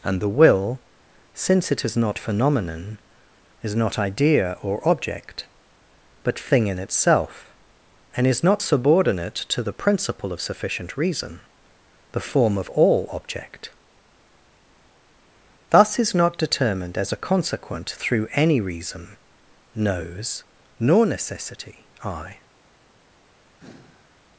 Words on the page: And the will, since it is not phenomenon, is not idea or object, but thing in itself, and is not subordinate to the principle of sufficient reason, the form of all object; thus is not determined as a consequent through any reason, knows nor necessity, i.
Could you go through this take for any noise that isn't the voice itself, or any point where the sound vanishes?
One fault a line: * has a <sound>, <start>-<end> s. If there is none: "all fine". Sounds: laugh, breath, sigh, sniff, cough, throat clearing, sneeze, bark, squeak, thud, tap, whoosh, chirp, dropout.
* has a sigh, 23.6-24.3 s